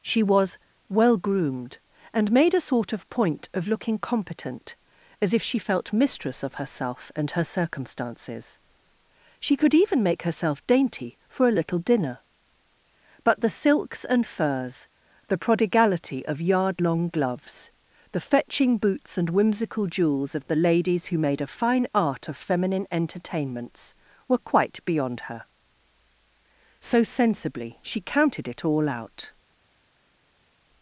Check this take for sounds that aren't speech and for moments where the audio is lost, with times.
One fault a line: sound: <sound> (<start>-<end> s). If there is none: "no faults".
no faults